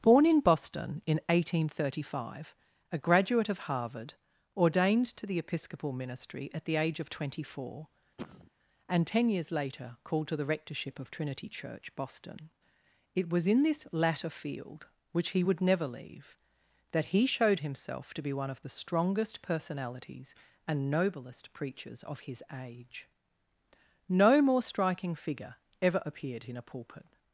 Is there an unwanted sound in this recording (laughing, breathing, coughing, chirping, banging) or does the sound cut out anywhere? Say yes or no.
yes